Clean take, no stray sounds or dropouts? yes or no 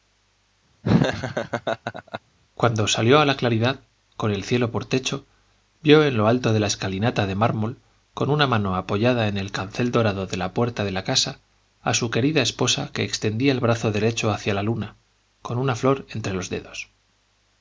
no